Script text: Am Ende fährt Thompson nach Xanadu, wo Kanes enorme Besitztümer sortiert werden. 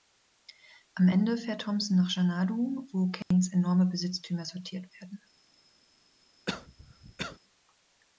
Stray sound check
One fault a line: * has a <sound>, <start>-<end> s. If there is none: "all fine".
* has a dropout, 3.2-3.3 s
* has a cough, 6.5-7.4 s